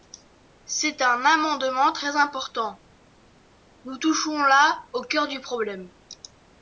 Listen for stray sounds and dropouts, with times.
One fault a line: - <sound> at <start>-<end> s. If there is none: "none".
none